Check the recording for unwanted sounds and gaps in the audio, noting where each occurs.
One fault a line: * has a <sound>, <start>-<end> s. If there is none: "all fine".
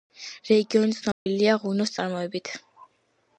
* has a dropout, 1.1-1.3 s